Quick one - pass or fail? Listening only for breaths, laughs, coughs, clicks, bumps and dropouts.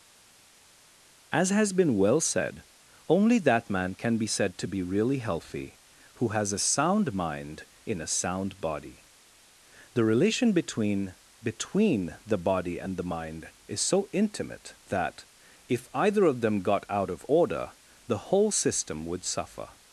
pass